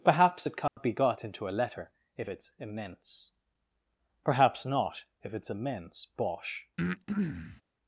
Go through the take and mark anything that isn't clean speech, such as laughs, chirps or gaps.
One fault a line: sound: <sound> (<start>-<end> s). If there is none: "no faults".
sound: dropout (0.7-0.8 s)
sound: breath (6.8-7.6 s)